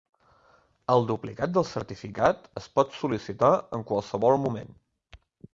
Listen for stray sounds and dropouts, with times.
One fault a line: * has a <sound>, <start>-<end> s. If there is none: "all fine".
all fine